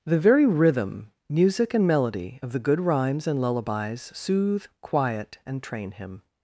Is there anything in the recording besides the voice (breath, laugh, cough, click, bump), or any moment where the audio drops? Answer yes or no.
no